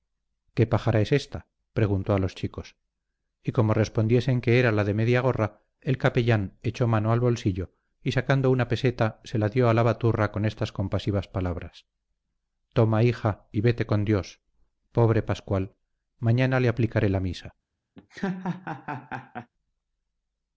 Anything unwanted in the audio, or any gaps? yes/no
yes